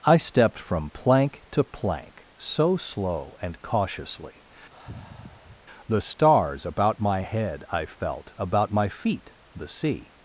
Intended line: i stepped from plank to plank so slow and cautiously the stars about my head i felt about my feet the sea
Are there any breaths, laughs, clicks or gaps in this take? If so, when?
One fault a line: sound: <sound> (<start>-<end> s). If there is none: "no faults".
sound: sigh (4.7-5.7 s)